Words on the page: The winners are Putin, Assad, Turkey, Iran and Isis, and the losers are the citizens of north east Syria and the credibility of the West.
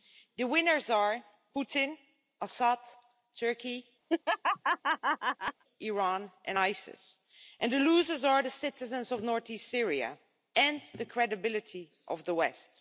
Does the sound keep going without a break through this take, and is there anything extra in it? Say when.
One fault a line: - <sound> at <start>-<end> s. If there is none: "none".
- laugh at 4.1-5.6 s